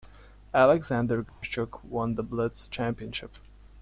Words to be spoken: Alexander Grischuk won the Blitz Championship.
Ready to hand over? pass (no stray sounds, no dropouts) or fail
fail